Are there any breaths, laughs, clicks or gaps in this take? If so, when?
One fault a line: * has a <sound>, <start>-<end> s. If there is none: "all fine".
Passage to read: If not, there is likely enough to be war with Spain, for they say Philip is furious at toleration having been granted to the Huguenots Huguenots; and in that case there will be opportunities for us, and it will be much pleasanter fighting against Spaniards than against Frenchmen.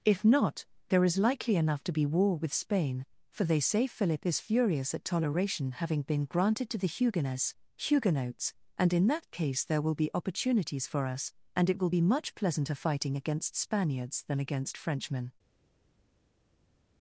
all fine